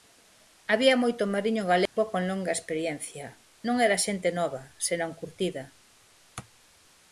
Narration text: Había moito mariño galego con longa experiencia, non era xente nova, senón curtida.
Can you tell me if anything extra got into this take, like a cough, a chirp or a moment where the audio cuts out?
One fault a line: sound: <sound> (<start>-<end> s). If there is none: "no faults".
sound: dropout (1.9-2.0 s)